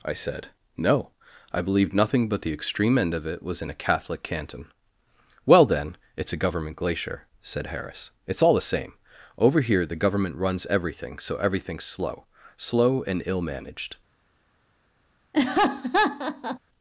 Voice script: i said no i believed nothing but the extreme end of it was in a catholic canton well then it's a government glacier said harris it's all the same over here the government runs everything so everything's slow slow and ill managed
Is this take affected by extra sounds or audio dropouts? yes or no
yes